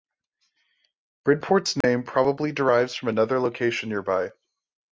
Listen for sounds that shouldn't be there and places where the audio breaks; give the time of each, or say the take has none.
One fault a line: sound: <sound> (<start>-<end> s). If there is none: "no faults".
sound: dropout (1.8-1.8 s)